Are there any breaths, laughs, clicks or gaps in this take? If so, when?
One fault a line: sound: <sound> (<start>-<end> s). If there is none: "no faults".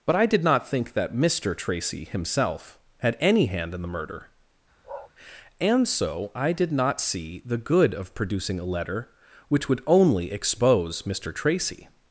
sound: bark (4.8-5.1 s)